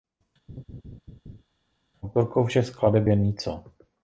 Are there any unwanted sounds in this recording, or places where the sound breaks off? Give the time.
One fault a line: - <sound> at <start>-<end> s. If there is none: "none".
- laugh at 0.5-1.4 s